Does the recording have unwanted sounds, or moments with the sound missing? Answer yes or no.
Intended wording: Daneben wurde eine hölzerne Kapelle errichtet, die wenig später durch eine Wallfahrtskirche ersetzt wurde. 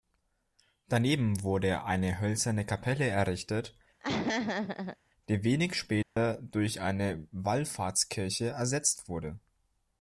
yes